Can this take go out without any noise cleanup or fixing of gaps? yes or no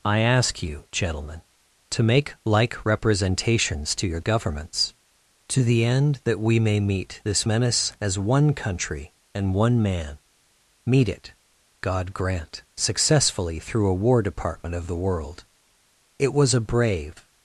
yes